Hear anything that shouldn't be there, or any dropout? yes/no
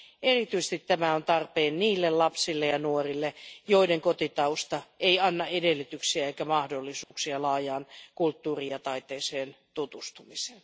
yes